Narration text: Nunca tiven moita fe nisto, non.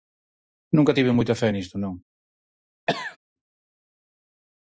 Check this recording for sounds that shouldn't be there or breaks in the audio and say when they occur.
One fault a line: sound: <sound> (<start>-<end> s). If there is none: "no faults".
sound: cough (2.9-3.2 s)